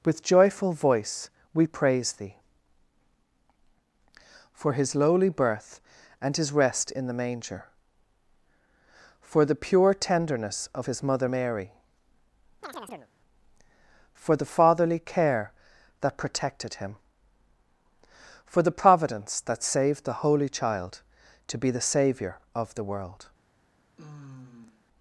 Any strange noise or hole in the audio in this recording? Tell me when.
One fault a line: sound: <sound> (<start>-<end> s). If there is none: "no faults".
sound: chirp (12.6-13.1 s)
sound: sigh (24.0-24.9 s)